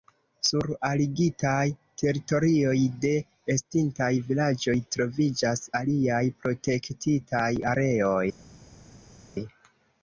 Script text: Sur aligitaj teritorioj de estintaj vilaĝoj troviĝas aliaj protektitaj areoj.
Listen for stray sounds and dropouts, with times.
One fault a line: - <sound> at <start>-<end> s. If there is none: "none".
none